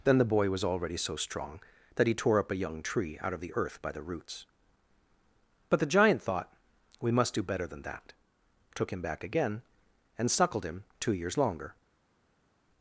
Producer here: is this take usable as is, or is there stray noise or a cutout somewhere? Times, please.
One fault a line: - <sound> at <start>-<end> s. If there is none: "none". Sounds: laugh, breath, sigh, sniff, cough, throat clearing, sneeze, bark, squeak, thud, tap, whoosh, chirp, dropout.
none